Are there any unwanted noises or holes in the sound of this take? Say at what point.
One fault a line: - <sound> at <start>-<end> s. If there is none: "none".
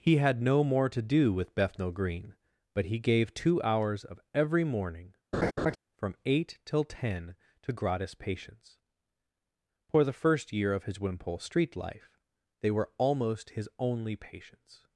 - laugh at 5.3-5.8 s